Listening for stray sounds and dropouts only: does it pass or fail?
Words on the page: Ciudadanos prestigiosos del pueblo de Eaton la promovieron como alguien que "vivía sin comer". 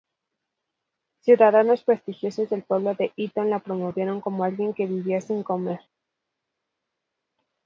pass